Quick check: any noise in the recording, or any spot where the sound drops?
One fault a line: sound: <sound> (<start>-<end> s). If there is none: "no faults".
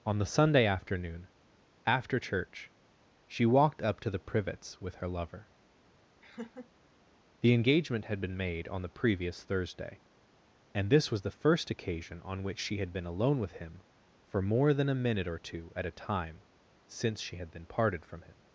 sound: laugh (6.2-6.7 s)